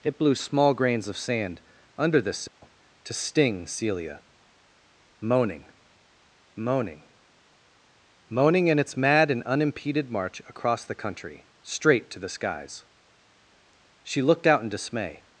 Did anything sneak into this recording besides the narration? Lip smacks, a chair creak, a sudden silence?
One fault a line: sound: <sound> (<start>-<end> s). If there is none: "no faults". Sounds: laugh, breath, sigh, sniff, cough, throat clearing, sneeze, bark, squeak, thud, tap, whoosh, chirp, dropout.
sound: dropout (2.5-2.6 s)